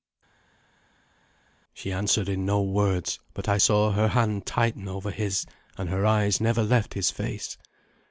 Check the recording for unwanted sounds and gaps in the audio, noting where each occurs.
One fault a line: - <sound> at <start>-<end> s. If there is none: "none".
none